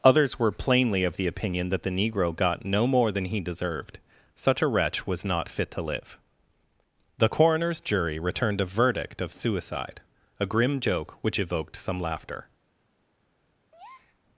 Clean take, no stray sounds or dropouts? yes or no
no